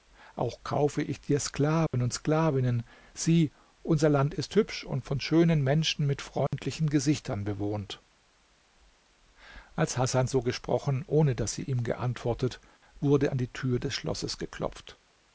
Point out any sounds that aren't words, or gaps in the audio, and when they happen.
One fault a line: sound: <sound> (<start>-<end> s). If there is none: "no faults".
sound: dropout (1.9-1.9 s)
sound: dropout (6.5-6.5 s)